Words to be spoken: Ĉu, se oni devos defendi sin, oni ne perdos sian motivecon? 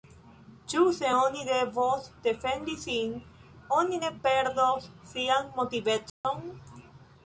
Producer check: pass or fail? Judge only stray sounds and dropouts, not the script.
fail